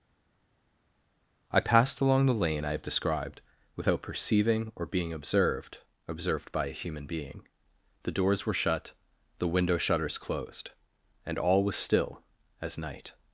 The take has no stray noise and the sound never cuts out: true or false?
true